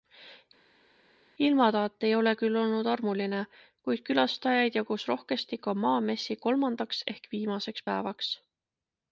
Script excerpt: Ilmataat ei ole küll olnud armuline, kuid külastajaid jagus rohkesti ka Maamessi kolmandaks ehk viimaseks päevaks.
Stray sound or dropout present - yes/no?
no